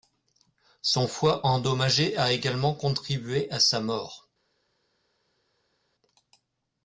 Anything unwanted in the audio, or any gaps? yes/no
no